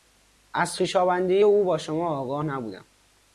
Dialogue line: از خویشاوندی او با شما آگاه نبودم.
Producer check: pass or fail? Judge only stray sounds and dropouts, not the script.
pass